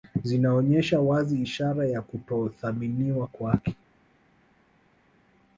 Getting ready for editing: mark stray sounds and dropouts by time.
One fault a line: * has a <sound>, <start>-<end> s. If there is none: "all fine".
all fine